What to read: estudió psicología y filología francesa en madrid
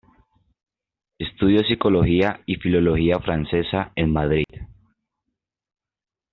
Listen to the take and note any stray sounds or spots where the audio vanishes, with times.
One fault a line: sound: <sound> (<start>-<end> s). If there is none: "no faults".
sound: dropout (4.4-4.5 s)